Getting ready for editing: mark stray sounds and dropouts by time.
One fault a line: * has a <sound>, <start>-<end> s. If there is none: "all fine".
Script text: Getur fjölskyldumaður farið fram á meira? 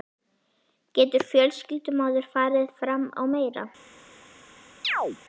* has a chirp, 4.8-5.2 s